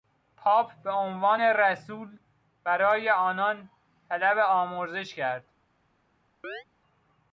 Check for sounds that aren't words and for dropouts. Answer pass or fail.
fail